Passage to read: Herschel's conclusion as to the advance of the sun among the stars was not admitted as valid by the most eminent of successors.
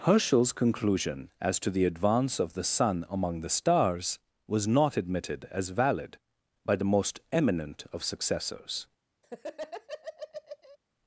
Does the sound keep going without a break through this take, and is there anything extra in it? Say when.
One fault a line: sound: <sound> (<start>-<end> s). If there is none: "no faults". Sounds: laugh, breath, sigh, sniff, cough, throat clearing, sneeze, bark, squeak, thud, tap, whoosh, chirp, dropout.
sound: laugh (9.2-10.8 s)